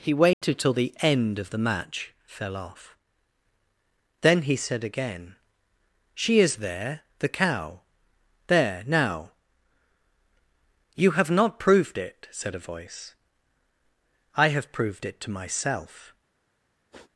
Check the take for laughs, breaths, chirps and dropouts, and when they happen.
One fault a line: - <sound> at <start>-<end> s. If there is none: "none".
- dropout at 0.3-0.4 s
- sniff at 16.9-17.1 s